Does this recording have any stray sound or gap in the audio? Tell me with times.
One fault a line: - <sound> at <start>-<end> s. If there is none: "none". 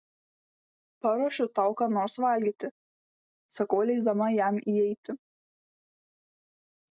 none